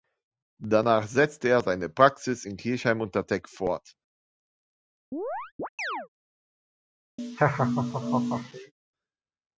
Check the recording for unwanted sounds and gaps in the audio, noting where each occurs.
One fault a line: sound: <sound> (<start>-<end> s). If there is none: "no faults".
sound: chirp (5.1-6.1 s)
sound: laugh (7.2-8.7 s)